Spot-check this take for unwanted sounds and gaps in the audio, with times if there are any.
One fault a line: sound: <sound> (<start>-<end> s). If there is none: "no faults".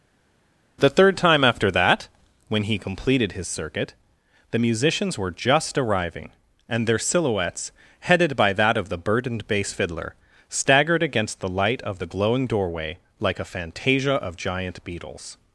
no faults